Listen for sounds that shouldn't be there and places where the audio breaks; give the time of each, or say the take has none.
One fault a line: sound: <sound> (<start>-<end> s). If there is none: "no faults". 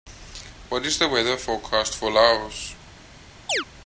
sound: chirp (3.5-3.7 s)